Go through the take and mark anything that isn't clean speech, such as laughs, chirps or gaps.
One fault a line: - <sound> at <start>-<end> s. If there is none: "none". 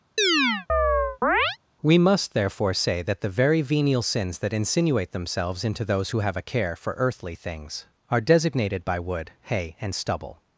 - chirp at 0.2-1.6 s